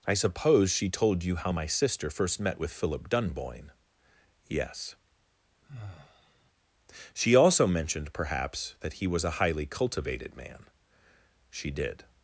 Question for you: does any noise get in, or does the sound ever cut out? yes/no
yes